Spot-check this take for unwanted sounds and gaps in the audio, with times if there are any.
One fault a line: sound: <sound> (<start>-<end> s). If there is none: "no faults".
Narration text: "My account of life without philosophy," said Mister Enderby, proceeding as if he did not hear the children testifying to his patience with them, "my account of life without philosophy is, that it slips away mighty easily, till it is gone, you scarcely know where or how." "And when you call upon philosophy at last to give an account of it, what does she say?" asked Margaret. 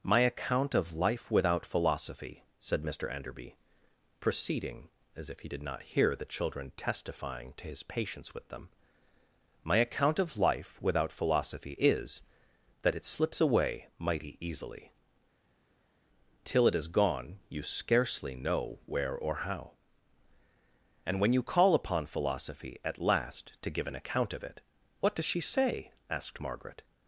no faults